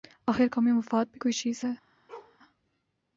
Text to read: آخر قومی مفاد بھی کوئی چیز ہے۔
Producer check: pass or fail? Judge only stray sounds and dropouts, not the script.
fail